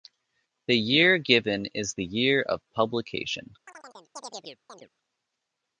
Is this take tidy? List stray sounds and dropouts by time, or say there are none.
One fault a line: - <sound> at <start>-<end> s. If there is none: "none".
- chirp at 3.7-4.9 s